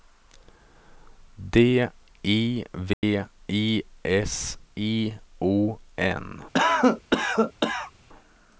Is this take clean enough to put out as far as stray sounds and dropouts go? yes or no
no